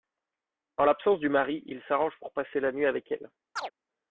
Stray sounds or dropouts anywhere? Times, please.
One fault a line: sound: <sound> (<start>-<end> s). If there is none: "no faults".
sound: chirp (3.6-3.7 s)